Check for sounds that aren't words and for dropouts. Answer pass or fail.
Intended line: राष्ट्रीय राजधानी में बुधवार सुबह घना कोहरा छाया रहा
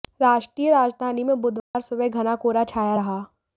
fail